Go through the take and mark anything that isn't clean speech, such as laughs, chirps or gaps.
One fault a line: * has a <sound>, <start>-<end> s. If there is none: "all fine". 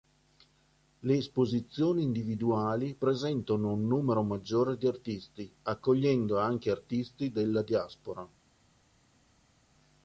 all fine